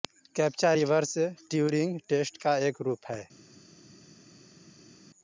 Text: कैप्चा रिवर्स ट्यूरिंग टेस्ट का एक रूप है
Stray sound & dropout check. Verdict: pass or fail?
pass